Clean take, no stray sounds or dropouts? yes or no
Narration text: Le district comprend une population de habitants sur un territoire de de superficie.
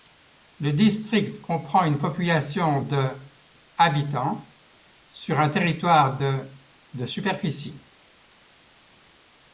yes